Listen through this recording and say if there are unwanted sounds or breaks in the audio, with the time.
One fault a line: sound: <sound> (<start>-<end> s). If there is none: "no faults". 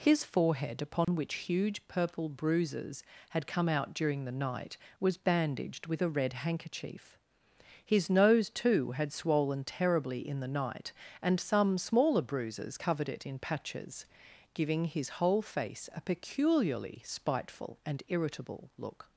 sound: dropout (1.0-1.1 s)